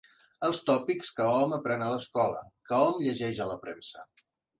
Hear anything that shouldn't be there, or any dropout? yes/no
no